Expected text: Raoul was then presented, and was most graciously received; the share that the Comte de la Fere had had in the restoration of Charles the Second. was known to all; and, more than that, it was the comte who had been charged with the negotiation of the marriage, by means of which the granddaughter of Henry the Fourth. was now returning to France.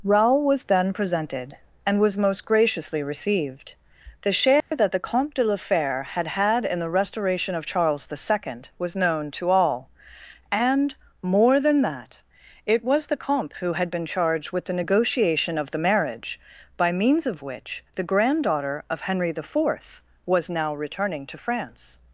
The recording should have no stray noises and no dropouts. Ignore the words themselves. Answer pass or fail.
fail